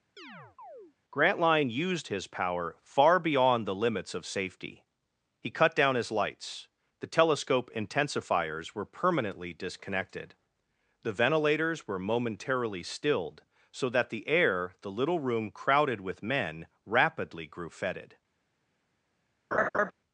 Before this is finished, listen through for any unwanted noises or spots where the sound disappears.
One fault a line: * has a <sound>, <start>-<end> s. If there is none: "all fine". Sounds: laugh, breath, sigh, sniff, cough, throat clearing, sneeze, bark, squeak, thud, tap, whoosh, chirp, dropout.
* has a chirp, 0.2-0.9 s
* has a laugh, 19.5-19.9 s